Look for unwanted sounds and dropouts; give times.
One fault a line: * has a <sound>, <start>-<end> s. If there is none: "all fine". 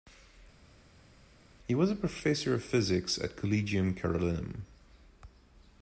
all fine